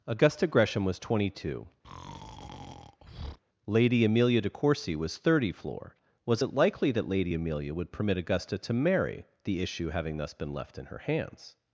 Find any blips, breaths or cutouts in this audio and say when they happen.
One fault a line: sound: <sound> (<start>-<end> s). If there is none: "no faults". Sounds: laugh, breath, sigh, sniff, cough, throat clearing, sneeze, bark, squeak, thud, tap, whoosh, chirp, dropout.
sound: breath (1.8-3.4 s)